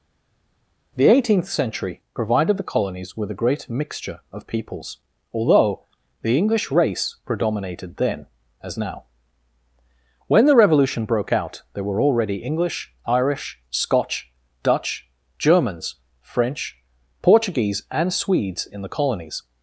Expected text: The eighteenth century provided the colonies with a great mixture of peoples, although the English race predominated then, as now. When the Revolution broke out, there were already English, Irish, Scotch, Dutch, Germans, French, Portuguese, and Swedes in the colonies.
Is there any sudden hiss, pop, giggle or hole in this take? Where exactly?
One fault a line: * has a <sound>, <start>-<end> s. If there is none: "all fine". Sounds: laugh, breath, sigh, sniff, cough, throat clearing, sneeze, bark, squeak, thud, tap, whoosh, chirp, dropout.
all fine